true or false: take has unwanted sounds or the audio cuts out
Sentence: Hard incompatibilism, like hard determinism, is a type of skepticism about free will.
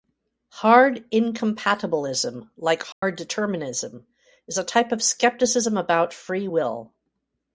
true